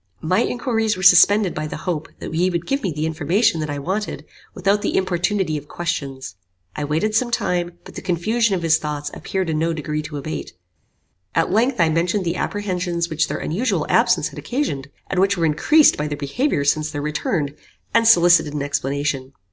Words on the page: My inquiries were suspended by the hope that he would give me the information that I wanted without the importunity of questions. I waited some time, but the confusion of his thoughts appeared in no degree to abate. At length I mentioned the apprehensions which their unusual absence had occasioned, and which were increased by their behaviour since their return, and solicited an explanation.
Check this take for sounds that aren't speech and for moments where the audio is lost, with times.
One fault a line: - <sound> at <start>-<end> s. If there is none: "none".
none